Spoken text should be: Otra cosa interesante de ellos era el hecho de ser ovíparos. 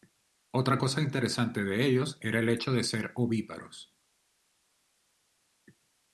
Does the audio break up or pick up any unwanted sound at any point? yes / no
no